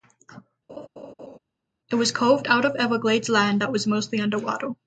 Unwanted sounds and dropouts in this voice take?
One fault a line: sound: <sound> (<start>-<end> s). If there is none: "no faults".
sound: laugh (0.7-1.4 s)